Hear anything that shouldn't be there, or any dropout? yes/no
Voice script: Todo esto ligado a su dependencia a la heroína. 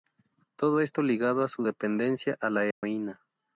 yes